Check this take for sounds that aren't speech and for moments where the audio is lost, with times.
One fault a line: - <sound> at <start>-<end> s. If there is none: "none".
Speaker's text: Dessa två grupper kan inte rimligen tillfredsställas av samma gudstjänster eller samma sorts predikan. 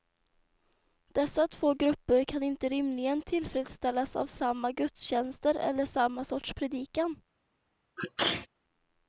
- sneeze at 8.0-8.5 s